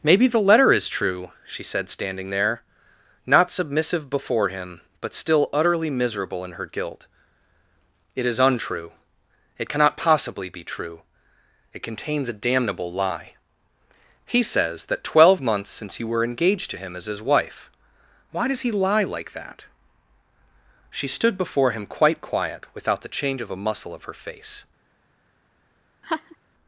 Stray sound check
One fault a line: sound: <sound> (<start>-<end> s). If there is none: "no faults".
sound: laugh (26.0-26.4 s)